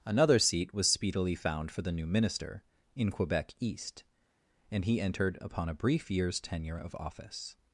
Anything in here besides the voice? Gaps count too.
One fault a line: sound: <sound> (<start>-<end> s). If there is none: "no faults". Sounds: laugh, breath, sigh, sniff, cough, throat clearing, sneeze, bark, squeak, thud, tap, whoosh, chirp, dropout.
no faults